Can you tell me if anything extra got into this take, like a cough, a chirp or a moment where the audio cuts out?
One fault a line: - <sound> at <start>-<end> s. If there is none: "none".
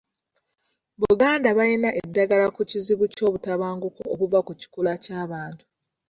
none